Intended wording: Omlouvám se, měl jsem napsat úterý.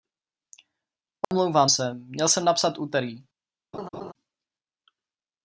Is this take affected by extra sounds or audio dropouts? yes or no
yes